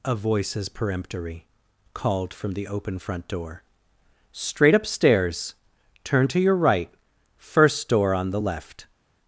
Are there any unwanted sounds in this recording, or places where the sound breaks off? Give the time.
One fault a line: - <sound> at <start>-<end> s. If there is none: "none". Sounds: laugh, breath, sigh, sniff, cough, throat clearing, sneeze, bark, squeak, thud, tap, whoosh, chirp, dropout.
none